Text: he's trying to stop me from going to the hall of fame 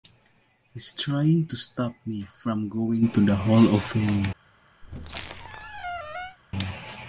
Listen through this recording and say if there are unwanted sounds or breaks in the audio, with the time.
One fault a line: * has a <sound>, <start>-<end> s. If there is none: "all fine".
* has a squeak, 4.8-6.4 s